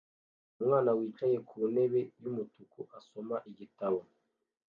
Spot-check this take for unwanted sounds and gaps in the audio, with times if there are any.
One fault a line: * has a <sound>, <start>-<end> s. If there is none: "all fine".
all fine